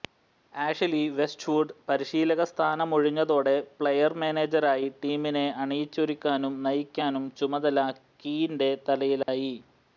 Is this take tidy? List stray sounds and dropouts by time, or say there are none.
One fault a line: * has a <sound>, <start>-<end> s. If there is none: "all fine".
* has a dropout, 9.2-9.3 s